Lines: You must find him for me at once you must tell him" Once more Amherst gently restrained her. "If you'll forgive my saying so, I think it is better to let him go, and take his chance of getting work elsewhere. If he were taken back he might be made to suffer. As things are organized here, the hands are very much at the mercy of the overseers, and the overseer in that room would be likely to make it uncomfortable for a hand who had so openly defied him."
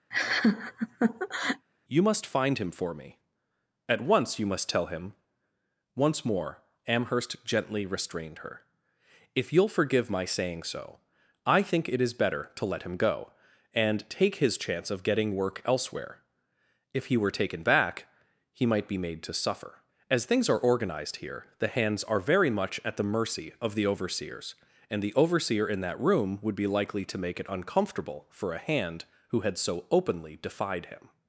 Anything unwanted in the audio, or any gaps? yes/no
yes